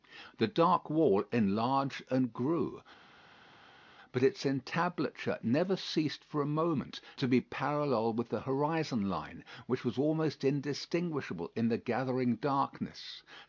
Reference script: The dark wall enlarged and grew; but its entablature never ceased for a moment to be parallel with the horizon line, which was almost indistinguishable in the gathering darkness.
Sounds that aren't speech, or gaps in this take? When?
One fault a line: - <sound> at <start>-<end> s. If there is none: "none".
none